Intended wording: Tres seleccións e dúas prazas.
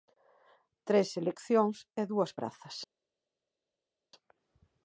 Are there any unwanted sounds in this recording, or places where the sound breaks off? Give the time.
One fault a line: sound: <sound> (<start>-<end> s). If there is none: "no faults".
no faults